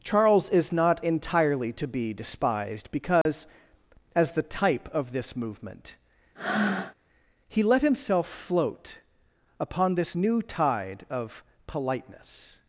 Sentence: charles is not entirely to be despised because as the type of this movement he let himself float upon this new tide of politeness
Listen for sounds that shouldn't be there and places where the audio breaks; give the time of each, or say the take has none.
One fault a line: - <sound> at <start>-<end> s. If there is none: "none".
- dropout at 3.2-3.3 s
- breath at 6.3-6.9 s